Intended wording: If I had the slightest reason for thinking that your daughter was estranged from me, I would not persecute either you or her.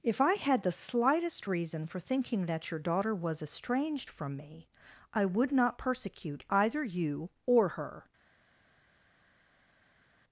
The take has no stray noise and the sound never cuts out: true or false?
true